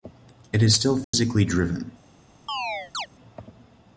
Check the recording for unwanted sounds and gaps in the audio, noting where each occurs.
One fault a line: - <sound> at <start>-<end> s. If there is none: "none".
- dropout at 1.0-1.1 s
- chirp at 2.5-3.1 s